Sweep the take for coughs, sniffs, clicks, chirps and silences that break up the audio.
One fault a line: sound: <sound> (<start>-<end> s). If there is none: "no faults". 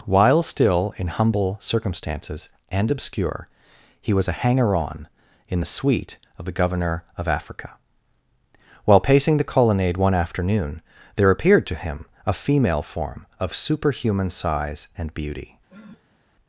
sound: sniff (15.7-16.2 s)